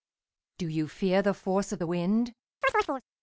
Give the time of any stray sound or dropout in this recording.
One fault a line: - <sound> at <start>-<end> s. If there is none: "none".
- chirp at 2.6-3.0 s